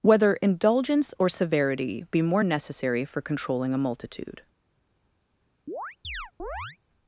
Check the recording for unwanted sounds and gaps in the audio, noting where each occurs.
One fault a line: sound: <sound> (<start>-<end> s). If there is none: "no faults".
sound: chirp (5.7-6.8 s)